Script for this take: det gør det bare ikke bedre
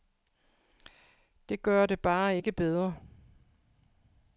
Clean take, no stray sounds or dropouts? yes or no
yes